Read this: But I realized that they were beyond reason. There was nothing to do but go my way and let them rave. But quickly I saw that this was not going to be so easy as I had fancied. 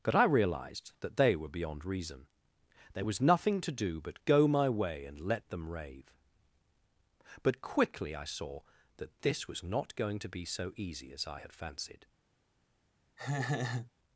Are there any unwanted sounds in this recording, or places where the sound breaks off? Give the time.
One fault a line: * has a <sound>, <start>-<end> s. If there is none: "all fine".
* has a laugh, 13.2-13.9 s